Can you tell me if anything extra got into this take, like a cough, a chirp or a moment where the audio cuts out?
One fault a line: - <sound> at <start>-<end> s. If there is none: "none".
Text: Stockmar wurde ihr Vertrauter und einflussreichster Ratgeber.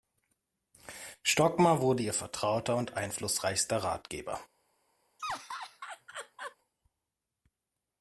- laugh at 5.2-6.6 s